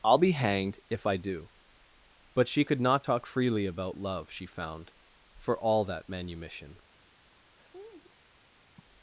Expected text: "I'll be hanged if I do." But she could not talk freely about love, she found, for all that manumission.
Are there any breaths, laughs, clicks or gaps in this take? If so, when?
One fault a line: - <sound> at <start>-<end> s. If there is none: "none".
- laugh at 7.6-8.1 s
- sigh at 8.8-8.9 s